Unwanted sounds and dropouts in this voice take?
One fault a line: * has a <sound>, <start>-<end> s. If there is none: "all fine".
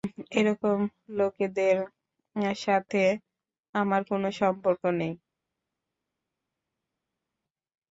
all fine